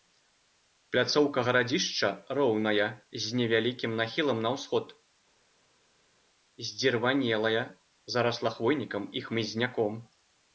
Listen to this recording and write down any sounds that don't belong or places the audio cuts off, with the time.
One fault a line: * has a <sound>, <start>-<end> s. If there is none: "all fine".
all fine